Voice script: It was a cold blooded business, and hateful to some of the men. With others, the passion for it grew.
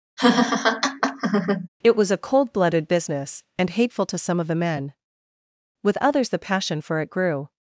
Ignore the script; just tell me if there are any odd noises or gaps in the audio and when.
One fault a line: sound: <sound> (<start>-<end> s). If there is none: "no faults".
sound: laugh (0.2-1.7 s)